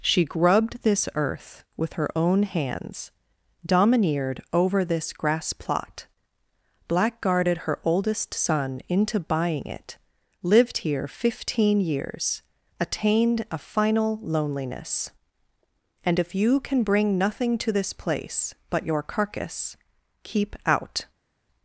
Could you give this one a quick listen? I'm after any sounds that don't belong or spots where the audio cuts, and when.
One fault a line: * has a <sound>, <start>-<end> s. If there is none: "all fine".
all fine